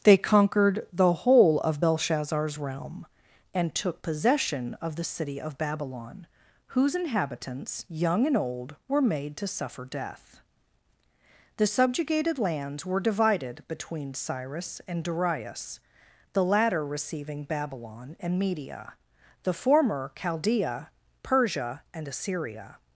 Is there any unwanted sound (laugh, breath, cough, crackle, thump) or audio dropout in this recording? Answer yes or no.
no